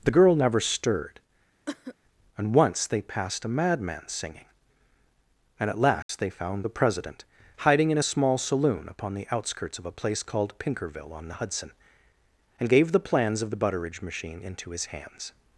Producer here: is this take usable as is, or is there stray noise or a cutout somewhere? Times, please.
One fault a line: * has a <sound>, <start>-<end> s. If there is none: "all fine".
* has a cough, 1.7-1.9 s
* has a dropout, 6.0-6.1 s